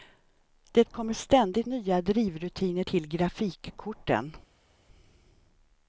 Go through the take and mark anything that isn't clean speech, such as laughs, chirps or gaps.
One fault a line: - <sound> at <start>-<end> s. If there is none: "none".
none